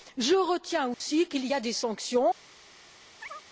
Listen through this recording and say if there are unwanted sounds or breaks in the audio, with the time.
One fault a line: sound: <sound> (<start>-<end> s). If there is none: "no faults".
sound: dropout (0.9-1.0 s)
sound: chirp (3.2-3.4 s)